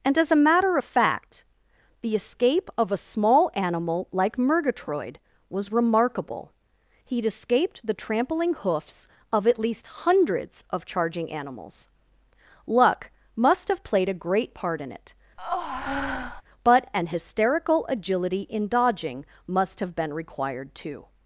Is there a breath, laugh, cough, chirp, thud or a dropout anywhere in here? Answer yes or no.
yes